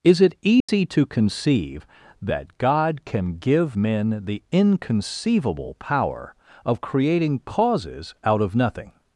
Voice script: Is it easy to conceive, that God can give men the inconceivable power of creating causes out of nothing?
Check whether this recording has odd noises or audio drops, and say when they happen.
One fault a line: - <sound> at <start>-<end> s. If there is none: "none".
- dropout at 0.6-0.7 s